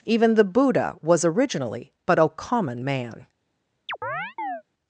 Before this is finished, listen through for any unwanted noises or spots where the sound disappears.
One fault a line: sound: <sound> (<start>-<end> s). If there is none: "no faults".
sound: chirp (3.9-4.6 s)